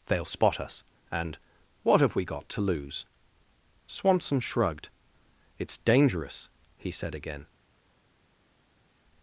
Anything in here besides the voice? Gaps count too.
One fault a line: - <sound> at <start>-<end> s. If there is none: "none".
none